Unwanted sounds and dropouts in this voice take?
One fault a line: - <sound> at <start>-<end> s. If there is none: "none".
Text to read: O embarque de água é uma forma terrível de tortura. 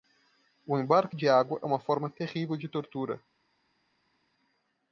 none